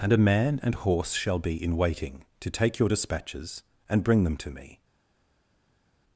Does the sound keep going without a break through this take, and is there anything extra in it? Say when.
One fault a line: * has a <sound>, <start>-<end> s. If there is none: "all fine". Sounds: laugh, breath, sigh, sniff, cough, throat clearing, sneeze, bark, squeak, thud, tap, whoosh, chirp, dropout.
all fine